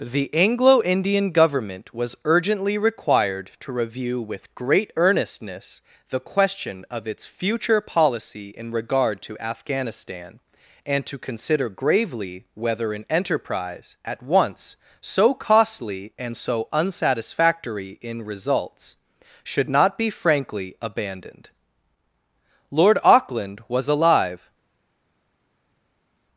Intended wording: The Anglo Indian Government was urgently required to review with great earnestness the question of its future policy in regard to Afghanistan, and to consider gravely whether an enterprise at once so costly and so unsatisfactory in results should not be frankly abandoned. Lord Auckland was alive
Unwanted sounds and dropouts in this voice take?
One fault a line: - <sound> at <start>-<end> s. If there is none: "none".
none